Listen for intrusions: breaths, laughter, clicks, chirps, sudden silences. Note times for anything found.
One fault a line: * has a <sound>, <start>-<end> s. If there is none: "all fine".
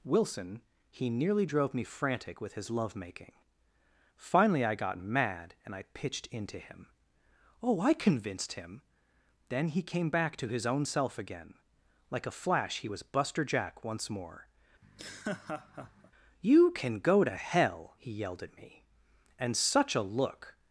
* has a laugh, 14.8-16.1 s